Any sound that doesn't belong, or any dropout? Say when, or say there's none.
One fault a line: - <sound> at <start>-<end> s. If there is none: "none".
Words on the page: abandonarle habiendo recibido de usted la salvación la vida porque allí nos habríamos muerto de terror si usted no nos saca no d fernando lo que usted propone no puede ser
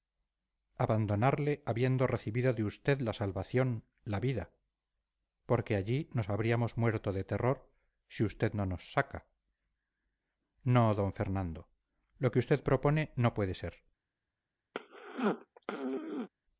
- throat clearing at 14.7-16.3 s